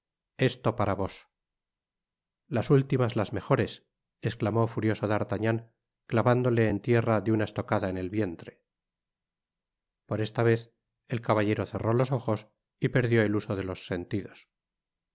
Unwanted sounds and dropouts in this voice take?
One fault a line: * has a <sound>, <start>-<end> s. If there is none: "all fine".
all fine